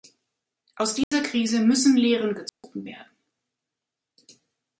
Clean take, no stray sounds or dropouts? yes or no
no